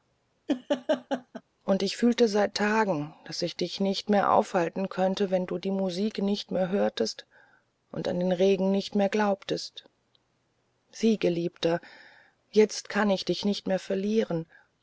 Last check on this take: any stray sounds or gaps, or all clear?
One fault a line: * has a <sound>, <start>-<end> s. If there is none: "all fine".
* has a laugh, 0.5-1.4 s